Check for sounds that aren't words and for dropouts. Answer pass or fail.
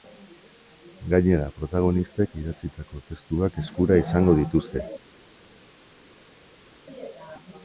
pass